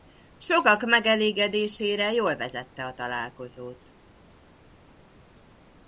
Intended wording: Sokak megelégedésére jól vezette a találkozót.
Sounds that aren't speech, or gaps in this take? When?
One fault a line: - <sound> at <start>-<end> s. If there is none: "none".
none